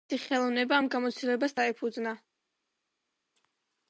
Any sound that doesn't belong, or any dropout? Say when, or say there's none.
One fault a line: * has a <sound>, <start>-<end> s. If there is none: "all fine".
all fine